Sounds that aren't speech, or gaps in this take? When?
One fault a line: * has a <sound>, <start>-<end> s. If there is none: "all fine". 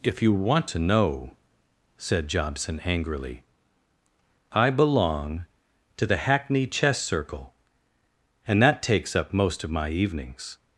all fine